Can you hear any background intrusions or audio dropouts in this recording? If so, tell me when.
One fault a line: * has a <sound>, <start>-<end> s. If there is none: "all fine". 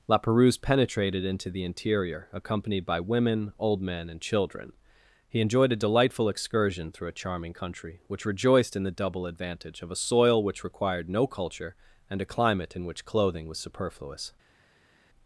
all fine